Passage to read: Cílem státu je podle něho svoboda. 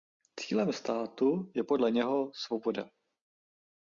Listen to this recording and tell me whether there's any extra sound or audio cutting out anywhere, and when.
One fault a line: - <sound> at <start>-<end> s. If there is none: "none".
none